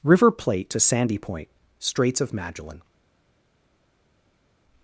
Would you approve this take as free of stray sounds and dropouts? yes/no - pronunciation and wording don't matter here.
yes